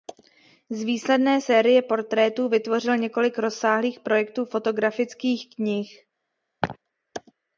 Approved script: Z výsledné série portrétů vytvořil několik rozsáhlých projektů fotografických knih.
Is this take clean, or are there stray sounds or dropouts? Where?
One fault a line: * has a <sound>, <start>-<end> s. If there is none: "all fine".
* has a laugh, 6.6-6.8 s